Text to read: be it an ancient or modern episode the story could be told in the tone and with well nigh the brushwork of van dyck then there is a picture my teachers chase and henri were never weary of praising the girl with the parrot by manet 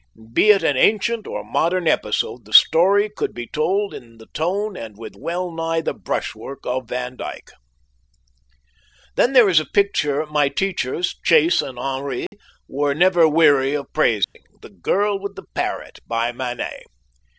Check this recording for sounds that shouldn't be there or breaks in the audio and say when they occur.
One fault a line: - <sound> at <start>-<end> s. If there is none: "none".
- dropout at 12.3-12.3 s
- dropout at 14.2-14.4 s